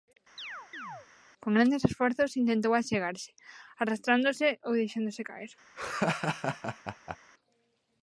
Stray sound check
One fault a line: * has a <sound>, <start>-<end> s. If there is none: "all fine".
* has a chirp, 0.4-1.1 s
* has a laugh, 5.8-7.2 s